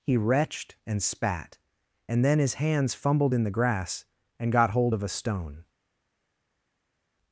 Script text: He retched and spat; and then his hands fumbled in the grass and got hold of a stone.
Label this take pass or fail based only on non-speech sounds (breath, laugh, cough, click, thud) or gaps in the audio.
pass